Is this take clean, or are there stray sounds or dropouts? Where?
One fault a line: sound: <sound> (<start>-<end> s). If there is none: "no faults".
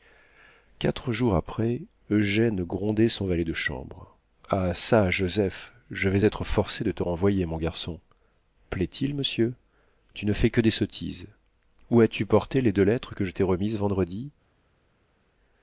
no faults